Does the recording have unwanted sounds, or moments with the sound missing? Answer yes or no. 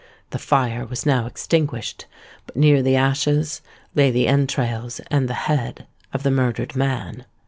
no